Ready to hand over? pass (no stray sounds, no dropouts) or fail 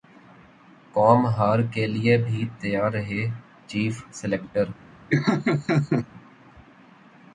fail